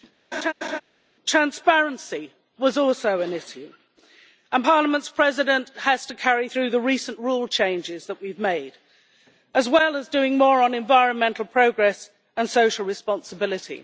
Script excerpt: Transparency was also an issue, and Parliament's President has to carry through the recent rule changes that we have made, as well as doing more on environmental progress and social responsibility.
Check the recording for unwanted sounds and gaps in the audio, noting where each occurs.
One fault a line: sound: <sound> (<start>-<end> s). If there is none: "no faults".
sound: laugh (0.3-0.8 s)